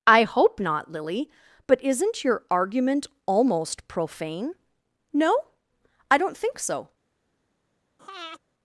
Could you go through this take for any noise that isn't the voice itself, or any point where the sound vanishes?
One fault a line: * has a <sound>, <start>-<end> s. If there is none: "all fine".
* has a breath, 8.0-8.4 s